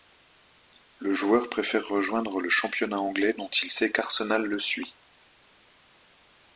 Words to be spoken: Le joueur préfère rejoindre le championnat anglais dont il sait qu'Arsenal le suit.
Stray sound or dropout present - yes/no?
no